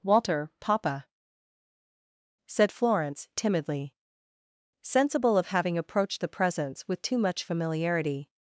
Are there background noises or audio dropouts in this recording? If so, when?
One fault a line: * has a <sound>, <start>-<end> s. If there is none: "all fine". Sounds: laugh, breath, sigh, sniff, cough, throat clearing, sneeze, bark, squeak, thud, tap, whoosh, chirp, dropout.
all fine